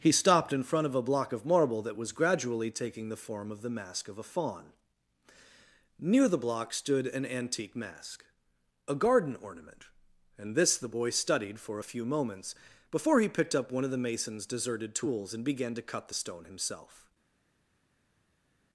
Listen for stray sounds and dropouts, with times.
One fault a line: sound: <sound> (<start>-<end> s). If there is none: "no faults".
no faults